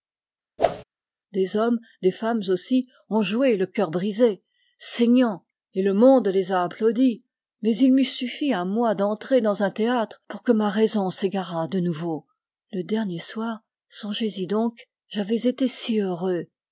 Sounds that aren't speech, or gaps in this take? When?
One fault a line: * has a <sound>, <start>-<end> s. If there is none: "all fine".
* has a whoosh, 0.6-0.8 s